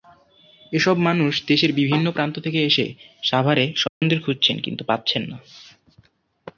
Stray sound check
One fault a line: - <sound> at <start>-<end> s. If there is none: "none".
- dropout at 3.9-4.0 s